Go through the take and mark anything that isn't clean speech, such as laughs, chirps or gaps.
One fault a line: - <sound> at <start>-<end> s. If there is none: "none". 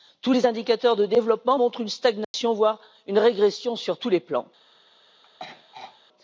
- dropout at 2.2-2.3 s
- throat clearing at 5.2-6.0 s